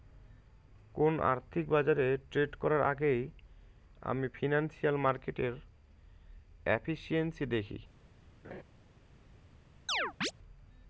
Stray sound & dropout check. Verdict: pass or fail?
fail